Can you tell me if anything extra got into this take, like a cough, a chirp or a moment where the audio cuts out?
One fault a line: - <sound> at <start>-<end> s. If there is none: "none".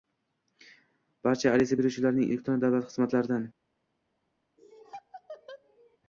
- laugh at 4.6-6.0 s